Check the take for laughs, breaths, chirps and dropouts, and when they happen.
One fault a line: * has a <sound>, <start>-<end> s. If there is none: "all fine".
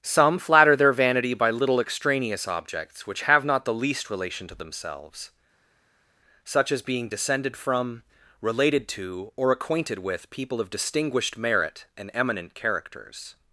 all fine